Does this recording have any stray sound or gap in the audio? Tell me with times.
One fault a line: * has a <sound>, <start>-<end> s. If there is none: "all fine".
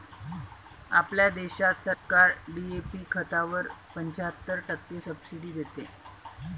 * has a dropout, 1.9-2.1 s